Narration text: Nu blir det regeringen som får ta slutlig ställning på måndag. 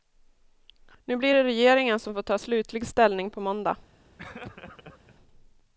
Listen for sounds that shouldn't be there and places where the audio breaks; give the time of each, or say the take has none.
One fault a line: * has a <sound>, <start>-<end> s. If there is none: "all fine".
* has a laugh, 4.2-5.2 s